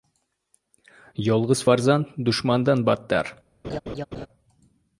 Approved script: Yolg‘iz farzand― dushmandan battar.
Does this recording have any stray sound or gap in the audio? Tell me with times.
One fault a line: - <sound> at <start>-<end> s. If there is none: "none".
- laugh at 3.6-4.3 s